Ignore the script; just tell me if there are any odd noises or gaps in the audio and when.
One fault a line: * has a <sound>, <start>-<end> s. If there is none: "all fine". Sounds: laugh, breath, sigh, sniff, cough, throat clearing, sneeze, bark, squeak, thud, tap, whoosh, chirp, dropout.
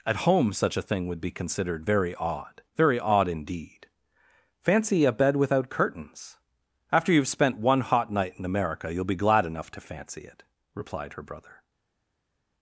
all fine